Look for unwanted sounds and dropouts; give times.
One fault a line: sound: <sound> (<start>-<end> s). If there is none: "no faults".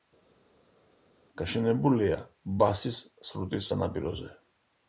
no faults